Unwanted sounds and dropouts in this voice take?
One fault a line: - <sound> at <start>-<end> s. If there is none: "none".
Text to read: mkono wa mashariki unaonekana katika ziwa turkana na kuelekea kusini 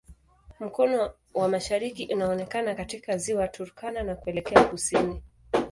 none